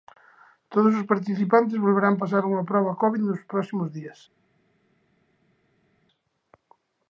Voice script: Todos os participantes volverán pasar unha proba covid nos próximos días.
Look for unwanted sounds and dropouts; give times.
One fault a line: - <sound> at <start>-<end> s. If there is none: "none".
none